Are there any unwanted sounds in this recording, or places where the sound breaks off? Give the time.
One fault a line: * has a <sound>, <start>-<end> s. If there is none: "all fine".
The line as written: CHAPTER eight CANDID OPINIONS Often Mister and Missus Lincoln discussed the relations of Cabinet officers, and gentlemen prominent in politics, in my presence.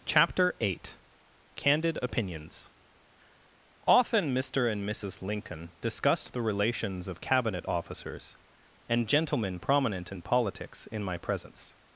all fine